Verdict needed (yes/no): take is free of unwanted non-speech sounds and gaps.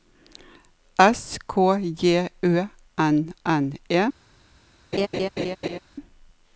no